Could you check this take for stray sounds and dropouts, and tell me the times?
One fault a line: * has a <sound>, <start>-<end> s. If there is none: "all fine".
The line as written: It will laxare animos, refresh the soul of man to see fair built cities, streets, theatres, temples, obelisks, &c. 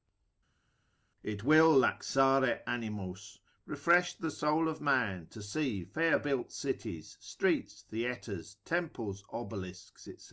all fine